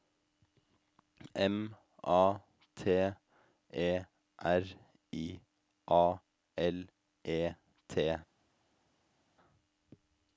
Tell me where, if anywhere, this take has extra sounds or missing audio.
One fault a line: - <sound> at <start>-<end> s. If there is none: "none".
none